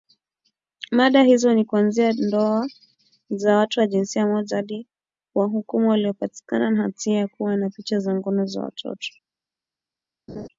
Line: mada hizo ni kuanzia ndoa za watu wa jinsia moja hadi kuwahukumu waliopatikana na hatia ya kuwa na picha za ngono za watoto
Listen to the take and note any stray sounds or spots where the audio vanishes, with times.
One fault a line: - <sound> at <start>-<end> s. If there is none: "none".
- laugh at 10.3-10.5 s